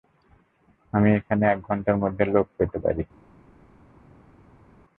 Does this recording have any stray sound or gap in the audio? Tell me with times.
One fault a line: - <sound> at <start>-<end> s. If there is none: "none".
none